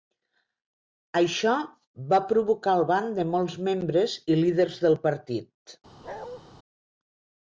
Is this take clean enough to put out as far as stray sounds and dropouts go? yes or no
no